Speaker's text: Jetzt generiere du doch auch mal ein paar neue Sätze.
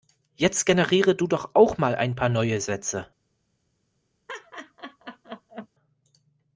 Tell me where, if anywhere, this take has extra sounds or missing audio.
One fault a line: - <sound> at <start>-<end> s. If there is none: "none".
- laugh at 4.3-5.7 s